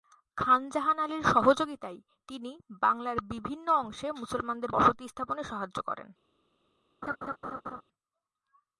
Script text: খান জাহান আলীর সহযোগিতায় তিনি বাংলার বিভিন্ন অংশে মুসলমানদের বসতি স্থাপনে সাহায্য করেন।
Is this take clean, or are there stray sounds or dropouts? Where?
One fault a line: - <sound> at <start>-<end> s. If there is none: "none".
- laugh at 7.0-7.8 s